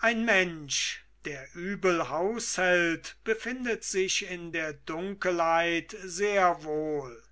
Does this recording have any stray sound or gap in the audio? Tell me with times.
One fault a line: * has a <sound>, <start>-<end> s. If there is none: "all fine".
all fine